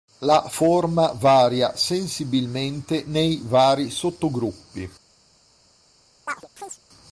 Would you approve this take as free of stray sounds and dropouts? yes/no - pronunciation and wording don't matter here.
no